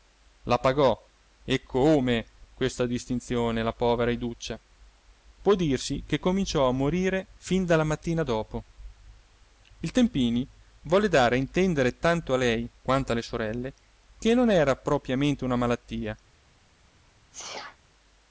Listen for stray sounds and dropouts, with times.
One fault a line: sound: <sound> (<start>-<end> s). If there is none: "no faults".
sound: sneeze (17.3-17.8 s)